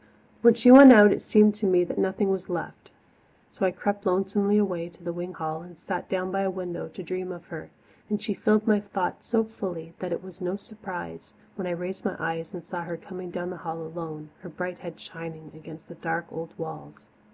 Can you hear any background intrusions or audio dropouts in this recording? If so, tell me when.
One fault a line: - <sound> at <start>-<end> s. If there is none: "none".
none